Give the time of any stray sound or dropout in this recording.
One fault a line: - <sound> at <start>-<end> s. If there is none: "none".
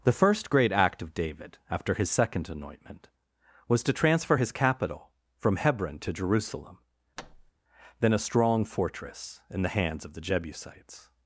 - thud at 7.2-7.5 s